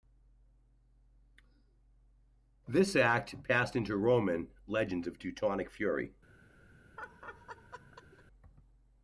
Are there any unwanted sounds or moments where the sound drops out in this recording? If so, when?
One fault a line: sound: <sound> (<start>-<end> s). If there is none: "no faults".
sound: laugh (7.0-8.2 s)